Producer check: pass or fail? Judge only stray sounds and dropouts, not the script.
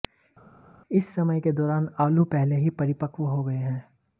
pass